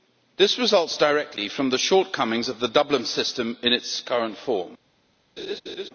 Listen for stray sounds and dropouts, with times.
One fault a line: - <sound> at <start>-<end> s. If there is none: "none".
- laugh at 5.4-5.9 s